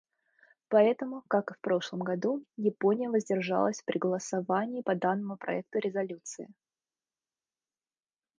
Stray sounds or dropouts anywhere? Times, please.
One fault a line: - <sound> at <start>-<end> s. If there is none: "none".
none